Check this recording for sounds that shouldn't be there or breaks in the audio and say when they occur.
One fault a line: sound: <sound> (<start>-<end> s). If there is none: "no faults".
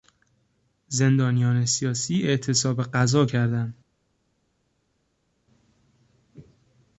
no faults